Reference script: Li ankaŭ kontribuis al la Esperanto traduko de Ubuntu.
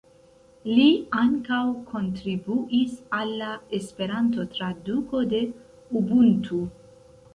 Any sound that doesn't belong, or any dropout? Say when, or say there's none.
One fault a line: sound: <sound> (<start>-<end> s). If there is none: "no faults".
no faults